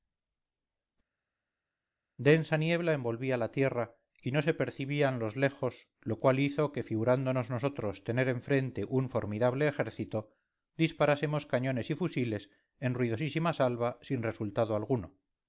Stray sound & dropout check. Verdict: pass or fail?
pass